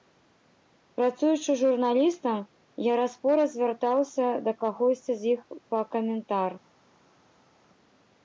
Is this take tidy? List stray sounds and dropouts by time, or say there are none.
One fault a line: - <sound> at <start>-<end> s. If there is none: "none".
none